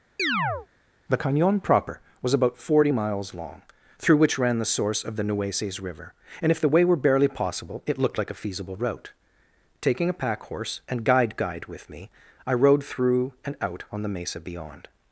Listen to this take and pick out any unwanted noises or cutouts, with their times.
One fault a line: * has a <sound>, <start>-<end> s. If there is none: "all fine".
* has a chirp, 0.2-0.7 s